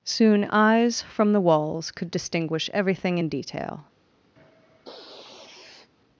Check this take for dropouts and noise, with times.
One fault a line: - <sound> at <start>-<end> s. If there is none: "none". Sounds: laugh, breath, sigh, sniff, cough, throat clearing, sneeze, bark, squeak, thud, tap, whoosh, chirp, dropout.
- sniff at 4.4-5.9 s